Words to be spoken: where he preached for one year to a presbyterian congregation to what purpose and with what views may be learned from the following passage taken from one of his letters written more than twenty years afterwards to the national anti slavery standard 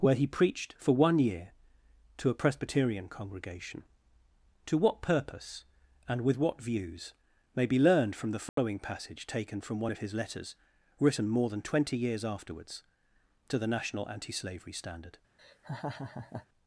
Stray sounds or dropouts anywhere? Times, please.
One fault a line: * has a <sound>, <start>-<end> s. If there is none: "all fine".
* has a dropout, 8.5-8.6 s
* has a laugh, 15.4-16.5 s